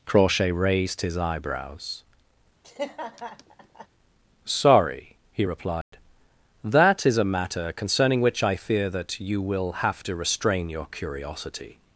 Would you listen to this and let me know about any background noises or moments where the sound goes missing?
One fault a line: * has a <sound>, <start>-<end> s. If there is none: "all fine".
* has a laugh, 2.6-3.9 s
* has a dropout, 5.8-5.9 s